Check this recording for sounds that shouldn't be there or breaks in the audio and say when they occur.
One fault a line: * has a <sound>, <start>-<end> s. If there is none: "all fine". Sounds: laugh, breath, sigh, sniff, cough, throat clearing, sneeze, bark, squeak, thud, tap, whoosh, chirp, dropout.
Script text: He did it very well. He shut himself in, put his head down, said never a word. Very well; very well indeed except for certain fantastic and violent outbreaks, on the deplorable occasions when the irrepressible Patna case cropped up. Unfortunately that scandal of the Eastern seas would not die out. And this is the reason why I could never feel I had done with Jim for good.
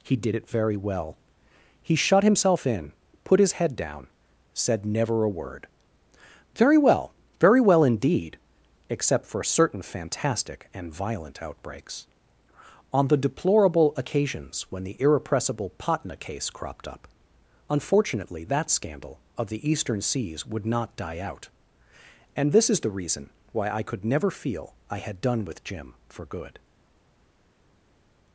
all fine